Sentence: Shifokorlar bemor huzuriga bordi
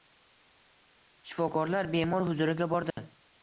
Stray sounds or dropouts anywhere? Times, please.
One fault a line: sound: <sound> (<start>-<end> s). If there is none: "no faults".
sound: dropout (2.9-3.0 s)